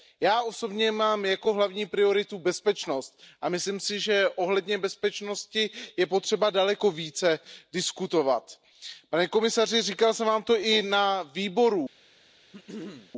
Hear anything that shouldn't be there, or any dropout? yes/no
yes